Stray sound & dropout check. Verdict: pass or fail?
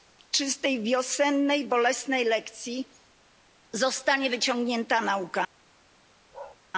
fail